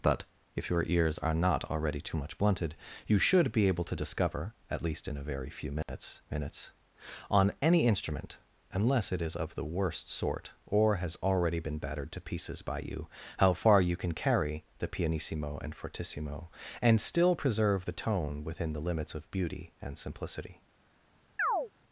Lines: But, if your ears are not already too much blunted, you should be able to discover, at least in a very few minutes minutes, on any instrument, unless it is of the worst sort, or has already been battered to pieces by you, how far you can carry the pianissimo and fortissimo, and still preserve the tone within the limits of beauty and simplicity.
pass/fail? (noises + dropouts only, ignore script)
fail